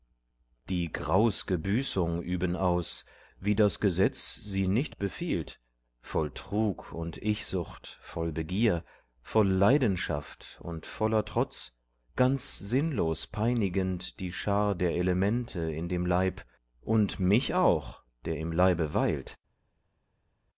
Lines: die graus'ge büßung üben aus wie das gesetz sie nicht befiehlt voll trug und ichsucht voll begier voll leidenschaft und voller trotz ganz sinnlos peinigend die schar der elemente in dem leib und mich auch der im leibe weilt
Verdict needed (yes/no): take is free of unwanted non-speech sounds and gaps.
yes